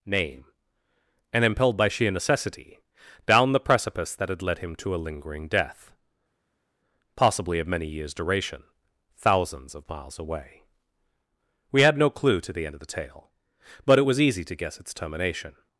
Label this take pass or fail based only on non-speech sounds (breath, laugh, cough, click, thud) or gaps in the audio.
pass